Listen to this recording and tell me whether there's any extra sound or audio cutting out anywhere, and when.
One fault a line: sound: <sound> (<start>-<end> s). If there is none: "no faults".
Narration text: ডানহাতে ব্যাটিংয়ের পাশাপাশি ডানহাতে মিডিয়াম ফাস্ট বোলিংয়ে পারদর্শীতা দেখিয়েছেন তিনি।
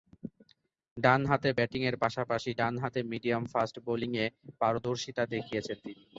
no faults